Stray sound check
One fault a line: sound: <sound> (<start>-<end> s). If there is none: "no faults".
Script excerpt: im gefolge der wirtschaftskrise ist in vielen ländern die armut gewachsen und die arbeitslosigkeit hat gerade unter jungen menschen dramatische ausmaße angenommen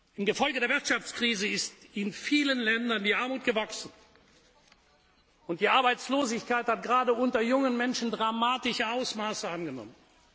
no faults